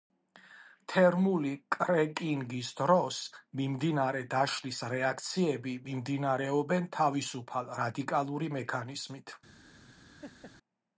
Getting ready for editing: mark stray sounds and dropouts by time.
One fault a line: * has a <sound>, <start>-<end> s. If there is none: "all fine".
* has a laugh, 10.2-10.6 s